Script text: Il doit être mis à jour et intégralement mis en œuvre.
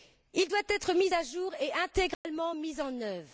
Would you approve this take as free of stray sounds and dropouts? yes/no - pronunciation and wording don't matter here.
no